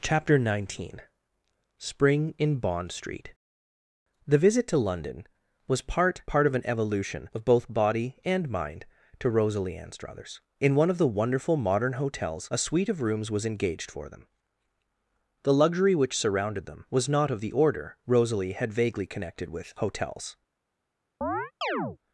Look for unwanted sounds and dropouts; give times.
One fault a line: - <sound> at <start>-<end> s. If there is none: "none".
- chirp at 21.2-22.0 s